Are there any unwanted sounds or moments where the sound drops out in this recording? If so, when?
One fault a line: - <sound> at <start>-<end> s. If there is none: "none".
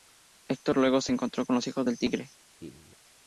- laugh at 2.6-3.0 s